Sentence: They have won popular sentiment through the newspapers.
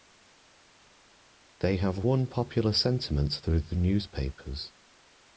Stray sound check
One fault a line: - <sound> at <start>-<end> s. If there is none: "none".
none